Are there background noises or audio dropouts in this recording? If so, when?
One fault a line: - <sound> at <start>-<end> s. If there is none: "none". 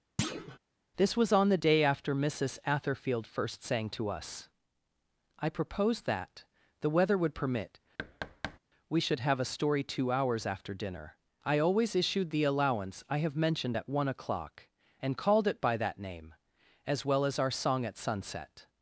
- thud at 0.2-0.6 s
- thud at 8.0-8.6 s